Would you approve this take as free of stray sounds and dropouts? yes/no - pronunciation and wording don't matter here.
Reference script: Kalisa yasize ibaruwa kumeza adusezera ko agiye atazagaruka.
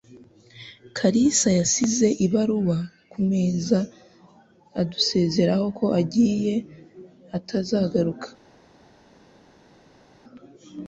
yes